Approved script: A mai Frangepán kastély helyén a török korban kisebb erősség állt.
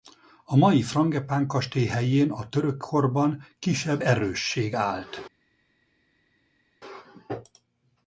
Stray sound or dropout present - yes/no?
no